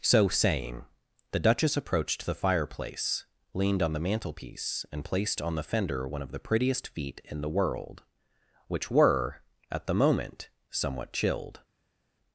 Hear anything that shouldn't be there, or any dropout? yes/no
no